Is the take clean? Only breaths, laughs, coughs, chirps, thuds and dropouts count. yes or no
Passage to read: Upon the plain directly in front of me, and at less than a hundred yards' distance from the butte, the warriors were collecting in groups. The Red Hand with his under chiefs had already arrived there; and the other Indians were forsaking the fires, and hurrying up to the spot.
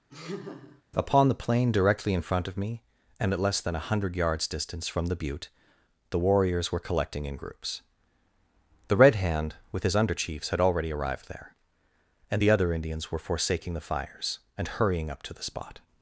no